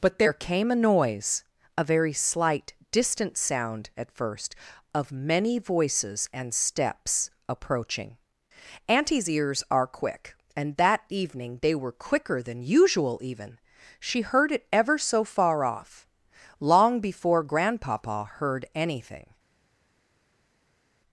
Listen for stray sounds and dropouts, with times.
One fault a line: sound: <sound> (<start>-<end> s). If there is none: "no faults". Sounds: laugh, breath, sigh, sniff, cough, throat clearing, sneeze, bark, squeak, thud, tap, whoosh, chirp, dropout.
no faults